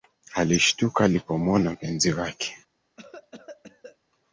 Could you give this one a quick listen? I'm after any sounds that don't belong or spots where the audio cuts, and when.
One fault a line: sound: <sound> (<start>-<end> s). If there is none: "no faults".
sound: cough (3.0-4.0 s)